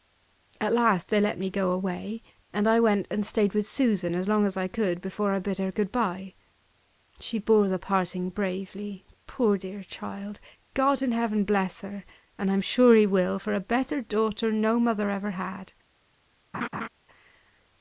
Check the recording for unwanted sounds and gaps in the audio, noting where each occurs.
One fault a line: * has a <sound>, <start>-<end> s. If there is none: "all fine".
* has a laugh, 16.5-16.9 s